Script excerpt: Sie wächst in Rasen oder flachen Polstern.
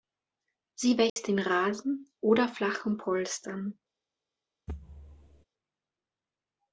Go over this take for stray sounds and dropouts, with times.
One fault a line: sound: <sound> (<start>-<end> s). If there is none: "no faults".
sound: dropout (1.1-1.2 s)
sound: thud (4.7-5.5 s)